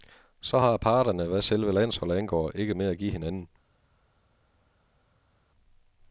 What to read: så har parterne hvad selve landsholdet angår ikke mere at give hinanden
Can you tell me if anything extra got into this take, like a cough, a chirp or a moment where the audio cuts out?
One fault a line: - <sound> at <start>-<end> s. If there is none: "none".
none